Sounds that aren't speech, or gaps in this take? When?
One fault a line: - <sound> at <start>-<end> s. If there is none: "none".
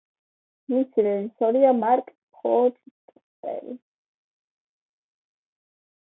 none